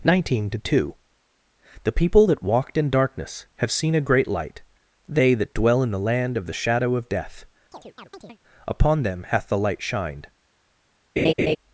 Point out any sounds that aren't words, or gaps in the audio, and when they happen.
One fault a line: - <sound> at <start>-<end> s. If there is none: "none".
- chirp at 7.7-8.4 s
- laugh at 11.2-11.6 s